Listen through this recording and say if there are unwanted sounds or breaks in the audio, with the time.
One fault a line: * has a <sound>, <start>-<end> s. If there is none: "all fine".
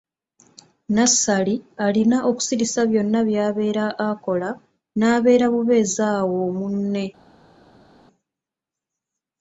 all fine